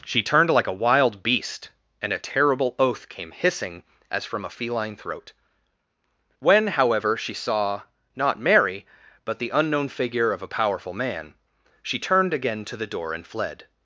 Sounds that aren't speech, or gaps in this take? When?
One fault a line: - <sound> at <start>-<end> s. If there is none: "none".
none